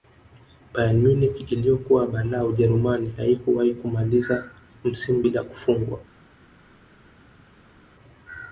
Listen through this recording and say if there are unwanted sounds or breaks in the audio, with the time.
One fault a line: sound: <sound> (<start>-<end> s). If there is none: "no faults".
no faults